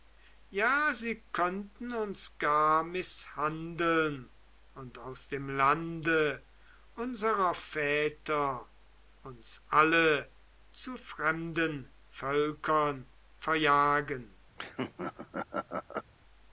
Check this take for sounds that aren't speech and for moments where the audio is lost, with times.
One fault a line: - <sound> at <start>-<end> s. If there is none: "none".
- laugh at 14.6-16.1 s